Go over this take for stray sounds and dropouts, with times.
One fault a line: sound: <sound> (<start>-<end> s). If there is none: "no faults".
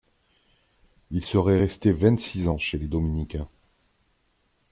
no faults